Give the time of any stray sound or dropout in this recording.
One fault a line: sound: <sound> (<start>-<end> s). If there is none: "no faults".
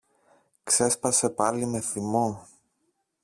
no faults